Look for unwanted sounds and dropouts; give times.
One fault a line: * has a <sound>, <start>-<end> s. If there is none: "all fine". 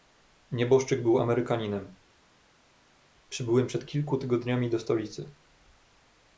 all fine